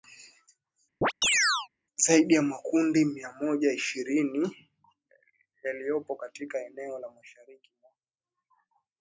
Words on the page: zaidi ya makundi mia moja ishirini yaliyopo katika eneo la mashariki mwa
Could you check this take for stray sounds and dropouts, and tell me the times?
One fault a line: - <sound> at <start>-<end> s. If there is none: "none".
- chirp at 1.0-1.7 s